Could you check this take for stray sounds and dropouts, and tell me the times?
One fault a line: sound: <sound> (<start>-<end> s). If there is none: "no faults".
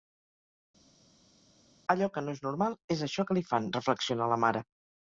no faults